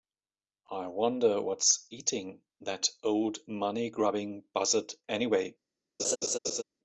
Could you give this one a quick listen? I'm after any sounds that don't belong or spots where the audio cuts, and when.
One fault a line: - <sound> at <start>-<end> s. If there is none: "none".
- laugh at 6.0-6.6 s